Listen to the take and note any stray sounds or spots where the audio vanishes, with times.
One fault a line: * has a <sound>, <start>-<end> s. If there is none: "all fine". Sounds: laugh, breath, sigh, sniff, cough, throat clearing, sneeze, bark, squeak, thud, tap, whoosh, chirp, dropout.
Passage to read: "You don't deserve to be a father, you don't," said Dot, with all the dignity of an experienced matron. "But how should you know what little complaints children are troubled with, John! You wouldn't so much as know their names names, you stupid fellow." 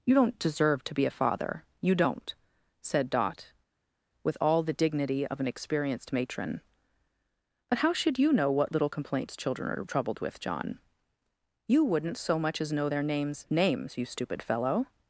all fine